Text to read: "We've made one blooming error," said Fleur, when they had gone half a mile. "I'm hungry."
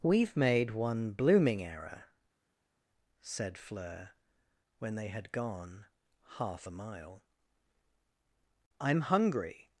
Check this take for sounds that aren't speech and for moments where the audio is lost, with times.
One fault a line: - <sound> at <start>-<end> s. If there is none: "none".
none